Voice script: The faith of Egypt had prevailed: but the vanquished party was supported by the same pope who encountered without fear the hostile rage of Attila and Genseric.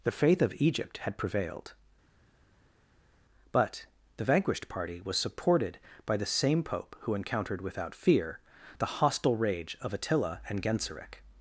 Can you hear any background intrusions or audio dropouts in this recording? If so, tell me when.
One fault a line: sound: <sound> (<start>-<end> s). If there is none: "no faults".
no faults